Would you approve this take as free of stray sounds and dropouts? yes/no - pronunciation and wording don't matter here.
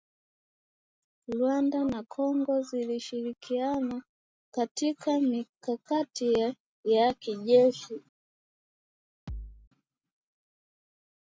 no